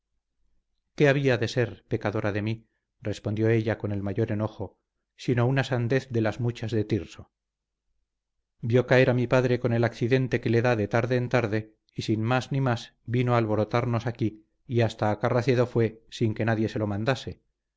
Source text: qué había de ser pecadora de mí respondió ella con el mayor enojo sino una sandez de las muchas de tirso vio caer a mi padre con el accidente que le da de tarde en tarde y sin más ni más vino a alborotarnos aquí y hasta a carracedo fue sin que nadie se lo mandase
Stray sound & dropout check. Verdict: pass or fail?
pass